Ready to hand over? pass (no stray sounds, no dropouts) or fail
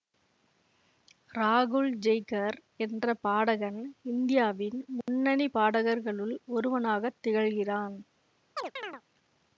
fail